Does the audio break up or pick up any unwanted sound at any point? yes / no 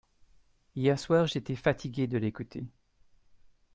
no